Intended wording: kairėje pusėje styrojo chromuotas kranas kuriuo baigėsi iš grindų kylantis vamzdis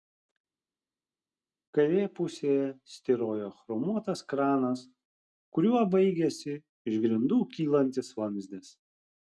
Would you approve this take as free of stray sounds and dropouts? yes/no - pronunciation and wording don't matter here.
yes